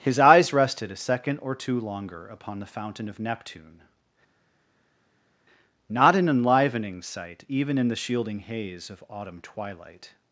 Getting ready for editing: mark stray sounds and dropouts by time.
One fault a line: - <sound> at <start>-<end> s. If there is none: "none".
none